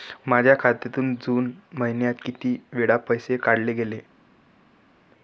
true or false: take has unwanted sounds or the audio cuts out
false